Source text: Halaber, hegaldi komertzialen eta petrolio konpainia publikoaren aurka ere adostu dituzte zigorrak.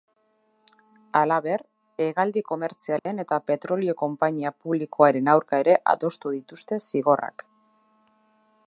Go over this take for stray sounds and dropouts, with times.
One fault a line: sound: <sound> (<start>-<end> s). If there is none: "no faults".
sound: dropout (3.0-3.1 s)